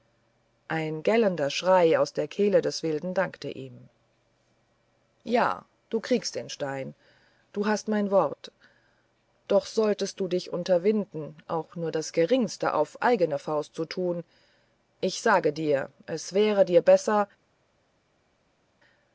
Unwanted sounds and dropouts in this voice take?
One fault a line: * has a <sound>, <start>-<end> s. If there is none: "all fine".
all fine